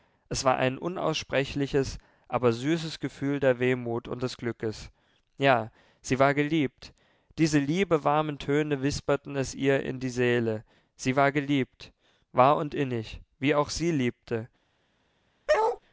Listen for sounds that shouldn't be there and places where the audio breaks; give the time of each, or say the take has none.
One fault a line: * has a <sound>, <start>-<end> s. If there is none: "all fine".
* has a bark, 15.5-15.8 s